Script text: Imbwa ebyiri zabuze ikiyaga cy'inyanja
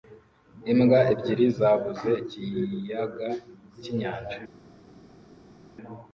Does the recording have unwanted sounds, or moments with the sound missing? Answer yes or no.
no